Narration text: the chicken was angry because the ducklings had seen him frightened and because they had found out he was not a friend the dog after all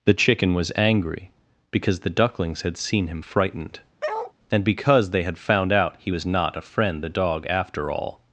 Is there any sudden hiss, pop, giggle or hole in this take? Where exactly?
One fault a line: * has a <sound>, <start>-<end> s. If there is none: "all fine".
* has a bark, 4.0-4.3 s